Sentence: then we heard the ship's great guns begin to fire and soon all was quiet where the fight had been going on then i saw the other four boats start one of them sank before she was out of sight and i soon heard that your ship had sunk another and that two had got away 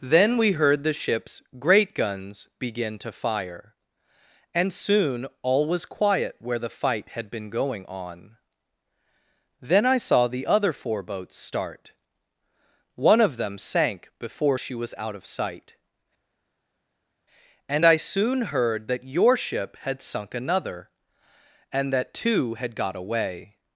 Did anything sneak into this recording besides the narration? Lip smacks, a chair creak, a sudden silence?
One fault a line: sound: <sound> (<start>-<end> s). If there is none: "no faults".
no faults